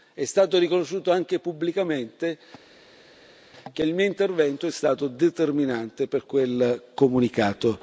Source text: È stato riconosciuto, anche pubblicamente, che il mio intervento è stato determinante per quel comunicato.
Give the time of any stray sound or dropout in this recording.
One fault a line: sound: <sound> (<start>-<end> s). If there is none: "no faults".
no faults